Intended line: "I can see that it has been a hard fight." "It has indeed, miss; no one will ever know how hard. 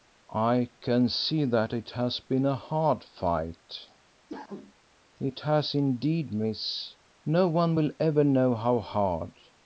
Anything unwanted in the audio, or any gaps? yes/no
yes